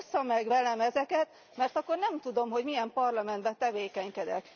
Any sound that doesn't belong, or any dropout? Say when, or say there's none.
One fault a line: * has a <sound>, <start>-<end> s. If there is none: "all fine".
all fine